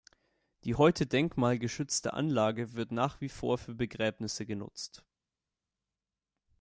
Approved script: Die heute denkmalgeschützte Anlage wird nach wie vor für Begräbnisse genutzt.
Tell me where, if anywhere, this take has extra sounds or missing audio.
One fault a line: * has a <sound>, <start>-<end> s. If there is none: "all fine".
all fine